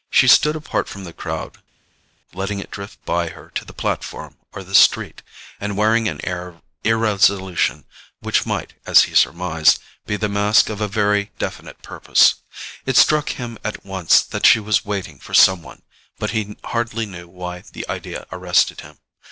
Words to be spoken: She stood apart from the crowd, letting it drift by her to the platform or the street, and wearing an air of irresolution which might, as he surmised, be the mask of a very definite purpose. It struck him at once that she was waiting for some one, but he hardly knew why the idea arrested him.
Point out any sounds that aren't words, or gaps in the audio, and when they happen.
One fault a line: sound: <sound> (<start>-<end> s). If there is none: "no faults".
no faults